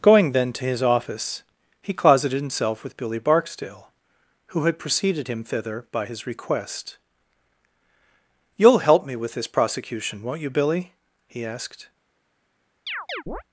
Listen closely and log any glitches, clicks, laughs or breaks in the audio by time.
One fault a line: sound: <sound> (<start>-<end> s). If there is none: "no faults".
sound: chirp (12.9-13.4 s)